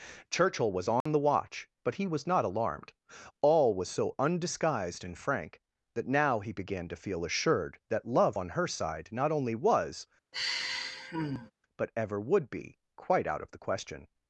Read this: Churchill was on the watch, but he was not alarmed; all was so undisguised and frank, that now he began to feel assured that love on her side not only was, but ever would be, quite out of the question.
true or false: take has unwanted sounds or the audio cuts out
true